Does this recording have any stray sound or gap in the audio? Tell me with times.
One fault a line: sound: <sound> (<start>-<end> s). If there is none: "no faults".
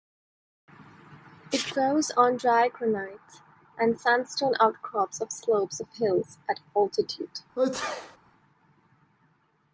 sound: sneeze (7.6-8.2 s)